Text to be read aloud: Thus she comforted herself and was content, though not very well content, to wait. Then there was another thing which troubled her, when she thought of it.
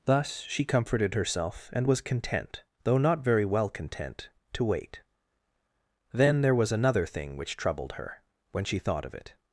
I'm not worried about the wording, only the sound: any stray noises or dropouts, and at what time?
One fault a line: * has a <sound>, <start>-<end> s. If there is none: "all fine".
all fine